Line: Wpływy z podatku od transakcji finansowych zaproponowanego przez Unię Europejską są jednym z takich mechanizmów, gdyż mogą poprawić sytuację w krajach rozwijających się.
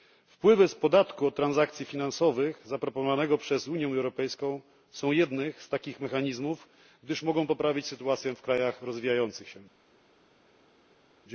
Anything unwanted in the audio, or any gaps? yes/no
no